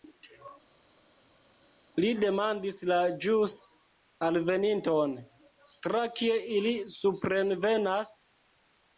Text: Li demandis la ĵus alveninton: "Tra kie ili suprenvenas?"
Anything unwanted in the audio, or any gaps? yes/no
no